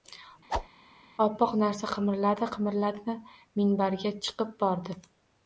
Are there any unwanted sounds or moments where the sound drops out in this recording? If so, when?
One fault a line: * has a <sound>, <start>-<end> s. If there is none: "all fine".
* has a whoosh, 0.5-0.7 s